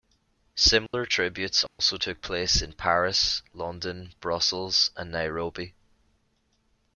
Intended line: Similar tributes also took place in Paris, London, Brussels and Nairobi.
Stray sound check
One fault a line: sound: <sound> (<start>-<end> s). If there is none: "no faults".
sound: dropout (0.9-0.9 s)
sound: dropout (1.7-1.8 s)